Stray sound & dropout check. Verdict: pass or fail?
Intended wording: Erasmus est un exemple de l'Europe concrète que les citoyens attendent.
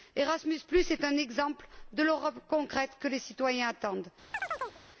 fail